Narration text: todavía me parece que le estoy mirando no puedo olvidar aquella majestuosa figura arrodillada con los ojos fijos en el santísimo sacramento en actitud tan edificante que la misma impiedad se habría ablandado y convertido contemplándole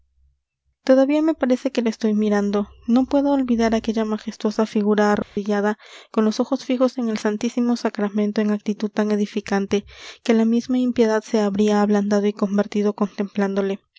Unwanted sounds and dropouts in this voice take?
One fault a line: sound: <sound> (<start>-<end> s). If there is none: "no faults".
sound: dropout (5.2-5.4 s)